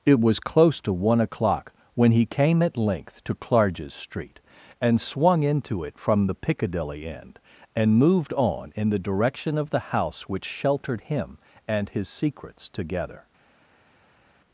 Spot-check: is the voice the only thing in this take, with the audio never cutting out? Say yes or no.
yes